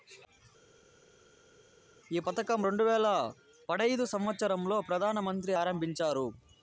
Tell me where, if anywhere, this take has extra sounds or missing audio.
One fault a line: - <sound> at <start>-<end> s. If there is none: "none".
none